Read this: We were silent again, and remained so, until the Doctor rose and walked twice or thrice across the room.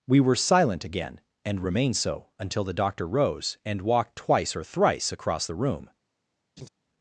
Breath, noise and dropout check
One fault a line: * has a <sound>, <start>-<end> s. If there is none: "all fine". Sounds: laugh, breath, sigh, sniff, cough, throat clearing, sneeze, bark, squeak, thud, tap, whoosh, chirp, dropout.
* has a laugh, 6.6-6.7 s